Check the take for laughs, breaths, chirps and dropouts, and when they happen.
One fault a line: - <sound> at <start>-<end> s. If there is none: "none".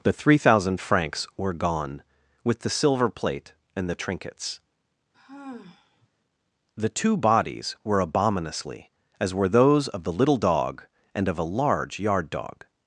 - sigh at 5.1-6.1 s